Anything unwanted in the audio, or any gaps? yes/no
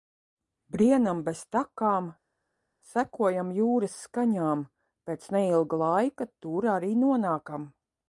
no